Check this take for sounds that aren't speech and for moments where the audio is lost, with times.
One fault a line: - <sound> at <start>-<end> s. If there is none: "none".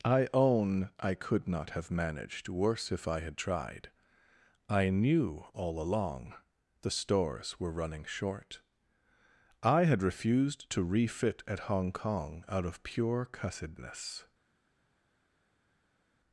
none